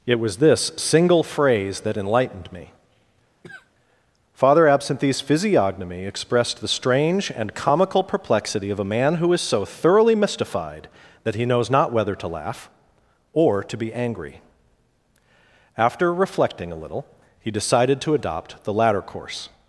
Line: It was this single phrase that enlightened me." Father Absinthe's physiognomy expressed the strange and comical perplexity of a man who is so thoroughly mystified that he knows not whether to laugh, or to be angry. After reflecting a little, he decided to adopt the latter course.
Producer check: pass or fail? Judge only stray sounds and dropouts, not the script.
fail